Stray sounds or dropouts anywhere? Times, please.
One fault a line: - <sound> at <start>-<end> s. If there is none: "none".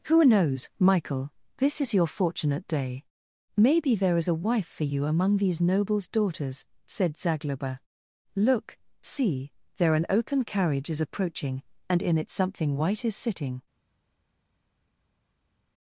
none